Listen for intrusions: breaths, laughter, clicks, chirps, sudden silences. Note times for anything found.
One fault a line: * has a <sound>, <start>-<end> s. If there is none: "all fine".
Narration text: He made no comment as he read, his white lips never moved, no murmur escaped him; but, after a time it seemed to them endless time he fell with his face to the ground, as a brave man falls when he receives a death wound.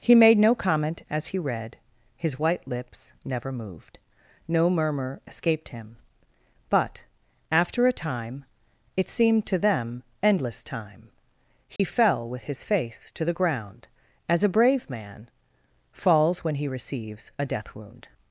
* has a dropout, 11.8-11.8 s